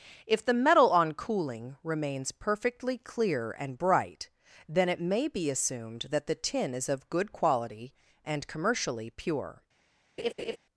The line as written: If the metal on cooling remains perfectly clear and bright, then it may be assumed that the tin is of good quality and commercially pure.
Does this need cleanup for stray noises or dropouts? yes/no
yes